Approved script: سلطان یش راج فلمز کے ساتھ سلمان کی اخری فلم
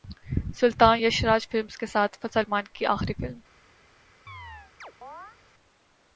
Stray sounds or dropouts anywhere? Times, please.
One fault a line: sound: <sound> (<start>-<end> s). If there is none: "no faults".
sound: chirp (4.3-5.4 s)